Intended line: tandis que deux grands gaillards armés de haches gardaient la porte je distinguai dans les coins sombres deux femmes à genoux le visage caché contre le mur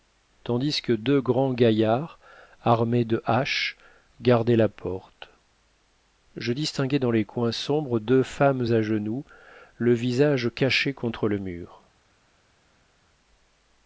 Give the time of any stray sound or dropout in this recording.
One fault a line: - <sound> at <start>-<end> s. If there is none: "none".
none